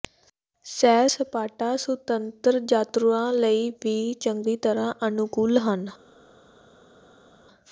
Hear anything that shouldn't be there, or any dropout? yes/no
no